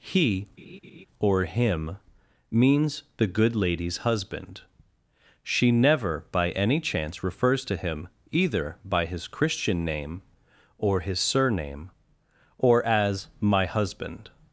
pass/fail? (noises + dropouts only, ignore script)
fail